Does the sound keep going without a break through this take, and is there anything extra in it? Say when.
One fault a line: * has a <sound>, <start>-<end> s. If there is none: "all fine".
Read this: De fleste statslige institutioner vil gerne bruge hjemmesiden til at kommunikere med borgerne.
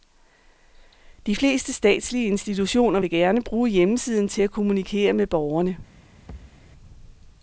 * has a thud, 6.3-6.6 s